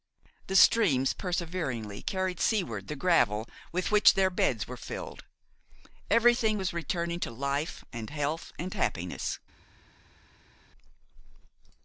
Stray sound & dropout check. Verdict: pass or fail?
pass